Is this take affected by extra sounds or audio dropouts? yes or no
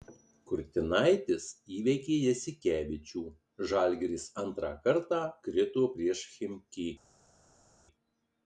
no